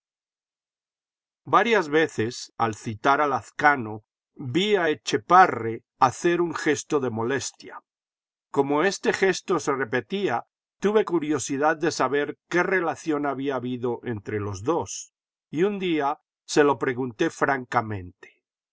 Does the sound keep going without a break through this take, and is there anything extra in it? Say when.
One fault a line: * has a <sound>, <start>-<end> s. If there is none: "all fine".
all fine